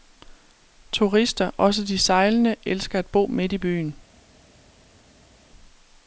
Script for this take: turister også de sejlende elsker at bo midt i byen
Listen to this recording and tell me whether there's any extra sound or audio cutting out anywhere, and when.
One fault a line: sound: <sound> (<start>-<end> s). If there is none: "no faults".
no faults